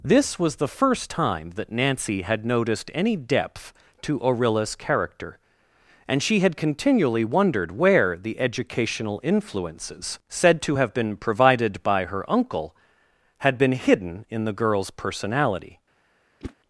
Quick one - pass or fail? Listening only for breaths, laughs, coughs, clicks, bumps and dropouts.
fail